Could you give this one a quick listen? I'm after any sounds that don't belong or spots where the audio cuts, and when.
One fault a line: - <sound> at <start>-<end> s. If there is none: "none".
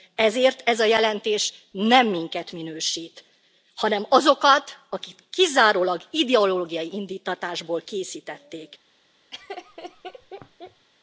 - laugh at 9.3-10.9 s